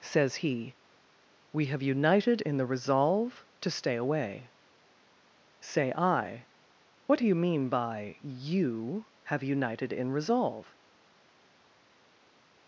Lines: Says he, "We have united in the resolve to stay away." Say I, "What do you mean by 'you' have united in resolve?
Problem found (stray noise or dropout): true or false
false